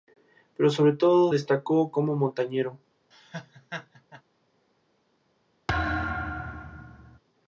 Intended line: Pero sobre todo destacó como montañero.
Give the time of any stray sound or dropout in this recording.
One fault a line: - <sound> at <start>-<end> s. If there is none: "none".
- laugh at 3.1-4.2 s
- thud at 5.7-7.2 s